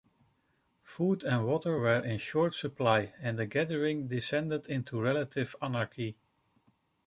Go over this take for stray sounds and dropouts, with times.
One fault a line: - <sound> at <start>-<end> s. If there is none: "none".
none